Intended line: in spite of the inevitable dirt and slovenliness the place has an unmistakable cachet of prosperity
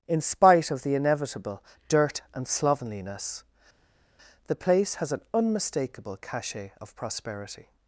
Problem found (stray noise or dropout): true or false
false